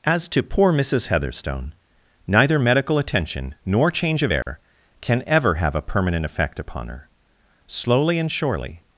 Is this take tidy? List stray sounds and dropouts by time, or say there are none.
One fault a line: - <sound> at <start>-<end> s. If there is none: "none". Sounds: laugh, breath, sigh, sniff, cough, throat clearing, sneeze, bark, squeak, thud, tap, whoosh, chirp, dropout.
- dropout at 4.4-4.5 s